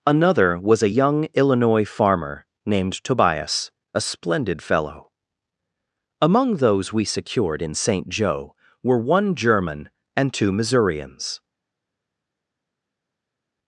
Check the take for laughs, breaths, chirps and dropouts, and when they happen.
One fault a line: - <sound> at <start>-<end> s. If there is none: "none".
none